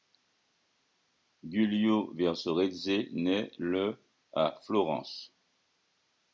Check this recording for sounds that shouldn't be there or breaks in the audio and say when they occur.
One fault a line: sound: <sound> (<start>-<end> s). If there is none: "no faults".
no faults